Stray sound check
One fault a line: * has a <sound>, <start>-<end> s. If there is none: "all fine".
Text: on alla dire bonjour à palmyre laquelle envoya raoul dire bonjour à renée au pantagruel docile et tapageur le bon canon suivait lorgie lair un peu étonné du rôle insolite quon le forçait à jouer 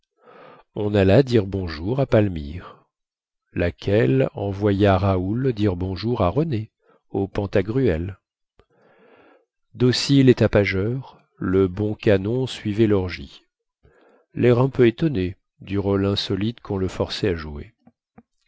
all fine